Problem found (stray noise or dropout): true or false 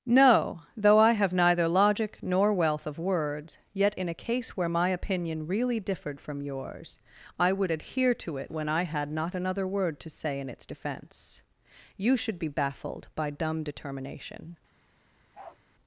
true